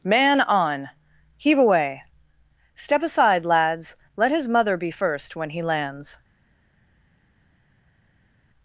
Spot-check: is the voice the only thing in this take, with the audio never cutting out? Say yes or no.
yes